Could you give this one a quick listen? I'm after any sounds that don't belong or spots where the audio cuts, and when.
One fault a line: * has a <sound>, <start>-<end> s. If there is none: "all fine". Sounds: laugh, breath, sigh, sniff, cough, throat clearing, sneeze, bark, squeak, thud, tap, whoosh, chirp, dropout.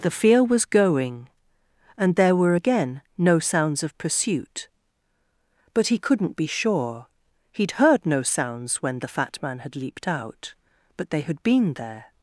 all fine